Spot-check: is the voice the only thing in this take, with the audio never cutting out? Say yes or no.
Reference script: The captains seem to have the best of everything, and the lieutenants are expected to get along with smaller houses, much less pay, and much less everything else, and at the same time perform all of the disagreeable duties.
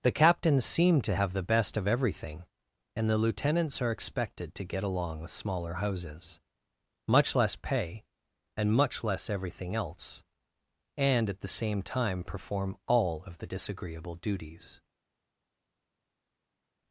yes